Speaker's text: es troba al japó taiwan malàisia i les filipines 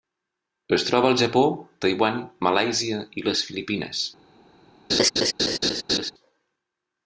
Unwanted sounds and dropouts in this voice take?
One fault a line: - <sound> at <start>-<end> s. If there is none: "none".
- laugh at 4.9-6.1 s